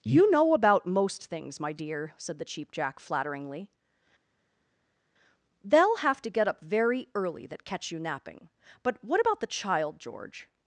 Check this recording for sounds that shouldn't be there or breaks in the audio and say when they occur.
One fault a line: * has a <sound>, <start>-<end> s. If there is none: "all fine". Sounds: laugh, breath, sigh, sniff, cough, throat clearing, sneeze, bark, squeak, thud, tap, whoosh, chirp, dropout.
all fine